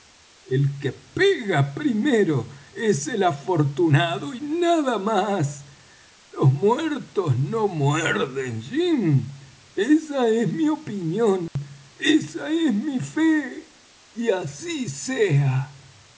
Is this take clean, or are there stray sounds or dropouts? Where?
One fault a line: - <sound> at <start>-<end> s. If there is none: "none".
- dropout at 11.5-11.6 s